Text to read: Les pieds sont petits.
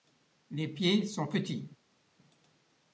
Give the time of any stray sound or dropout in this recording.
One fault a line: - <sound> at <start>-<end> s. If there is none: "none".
none